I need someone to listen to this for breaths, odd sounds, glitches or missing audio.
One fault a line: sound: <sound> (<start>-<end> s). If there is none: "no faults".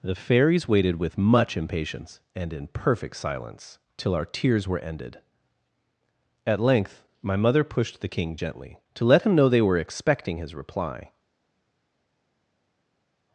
no faults